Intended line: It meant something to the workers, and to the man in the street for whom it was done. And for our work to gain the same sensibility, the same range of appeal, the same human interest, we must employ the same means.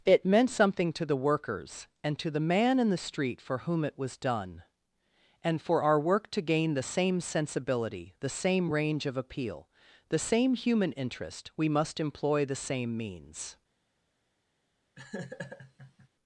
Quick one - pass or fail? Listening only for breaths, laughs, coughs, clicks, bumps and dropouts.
fail